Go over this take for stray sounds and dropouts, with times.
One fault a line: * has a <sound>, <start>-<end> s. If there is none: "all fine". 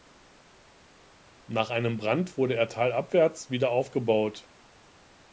all fine